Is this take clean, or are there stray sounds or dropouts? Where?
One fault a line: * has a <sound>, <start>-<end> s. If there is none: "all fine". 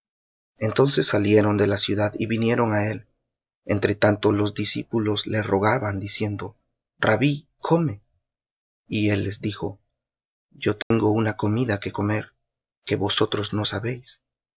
* has a dropout, 10.8-10.9 s